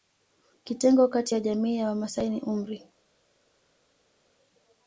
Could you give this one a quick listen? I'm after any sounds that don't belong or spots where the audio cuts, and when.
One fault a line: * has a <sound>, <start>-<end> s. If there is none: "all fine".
all fine